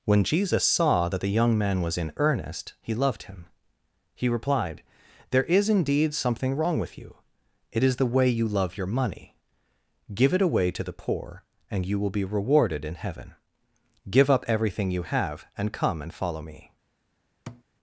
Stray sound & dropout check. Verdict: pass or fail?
fail